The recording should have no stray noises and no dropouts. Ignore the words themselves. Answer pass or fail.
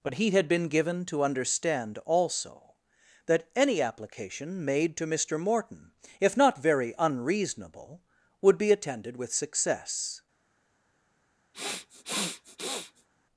fail